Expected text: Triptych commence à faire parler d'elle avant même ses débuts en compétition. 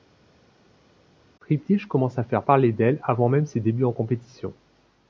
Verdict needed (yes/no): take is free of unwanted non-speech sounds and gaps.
yes